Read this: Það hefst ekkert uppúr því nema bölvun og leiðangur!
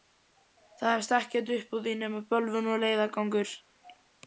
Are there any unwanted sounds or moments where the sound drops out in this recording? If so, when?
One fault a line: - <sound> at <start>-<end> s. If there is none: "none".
none